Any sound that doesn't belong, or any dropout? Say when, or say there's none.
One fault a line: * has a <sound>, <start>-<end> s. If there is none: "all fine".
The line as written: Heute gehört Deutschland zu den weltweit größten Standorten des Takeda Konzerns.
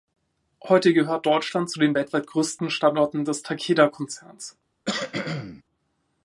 * has a cough, 4.9-5.6 s